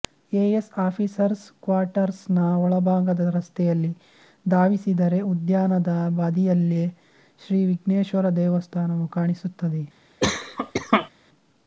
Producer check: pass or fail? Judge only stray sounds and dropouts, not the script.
fail